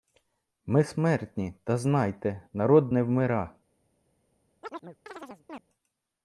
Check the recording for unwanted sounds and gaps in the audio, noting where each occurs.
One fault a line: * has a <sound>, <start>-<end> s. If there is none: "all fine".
* has a chirp, 4.6-5.6 s